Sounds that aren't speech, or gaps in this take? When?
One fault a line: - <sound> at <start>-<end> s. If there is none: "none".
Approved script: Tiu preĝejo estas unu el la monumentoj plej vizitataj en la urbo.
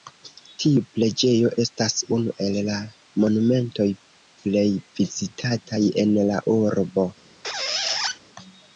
- squeak at 7.4-8.2 s